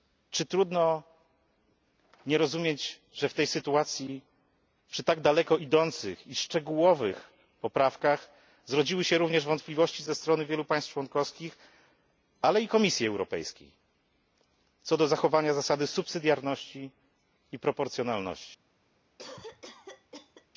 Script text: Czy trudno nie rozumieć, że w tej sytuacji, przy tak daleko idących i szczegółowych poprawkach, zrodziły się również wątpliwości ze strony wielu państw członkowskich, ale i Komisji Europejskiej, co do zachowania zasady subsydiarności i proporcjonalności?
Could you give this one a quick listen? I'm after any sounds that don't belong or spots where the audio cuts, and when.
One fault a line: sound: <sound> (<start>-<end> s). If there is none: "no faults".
sound: cough (19.2-20.5 s)